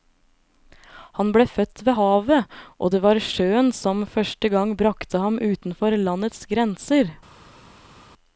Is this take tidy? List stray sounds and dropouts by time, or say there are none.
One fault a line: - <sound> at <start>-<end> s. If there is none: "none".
none